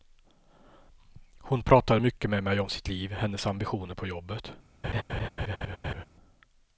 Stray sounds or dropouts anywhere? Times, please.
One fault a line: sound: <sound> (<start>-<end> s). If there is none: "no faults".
sound: laugh (4.8-6.0 s)